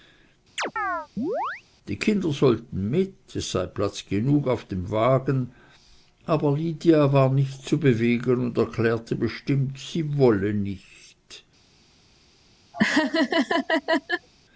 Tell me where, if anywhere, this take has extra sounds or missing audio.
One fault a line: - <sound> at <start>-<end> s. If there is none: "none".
- chirp at 0.6-1.6 s
- laugh at 12.7-14.3 s